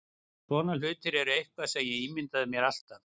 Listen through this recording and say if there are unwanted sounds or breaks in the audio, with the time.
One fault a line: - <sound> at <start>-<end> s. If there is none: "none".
none